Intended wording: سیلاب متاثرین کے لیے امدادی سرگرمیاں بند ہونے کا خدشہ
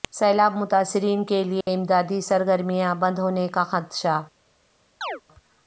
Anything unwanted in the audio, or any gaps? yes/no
yes